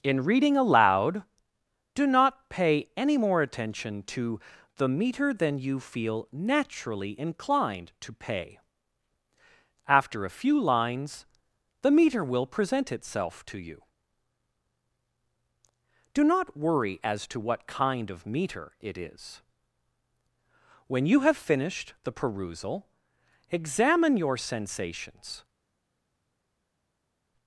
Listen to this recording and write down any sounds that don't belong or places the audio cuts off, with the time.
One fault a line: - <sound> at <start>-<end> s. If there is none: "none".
none